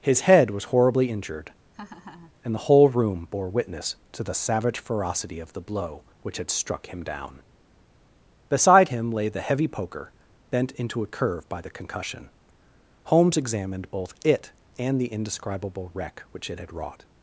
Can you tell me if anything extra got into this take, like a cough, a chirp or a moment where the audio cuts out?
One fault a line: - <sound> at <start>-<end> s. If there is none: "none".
- laugh at 1.7-2.3 s